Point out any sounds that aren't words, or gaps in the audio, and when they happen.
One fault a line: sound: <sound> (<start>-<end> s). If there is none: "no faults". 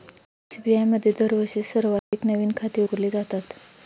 sound: dropout (2.0-2.1 s)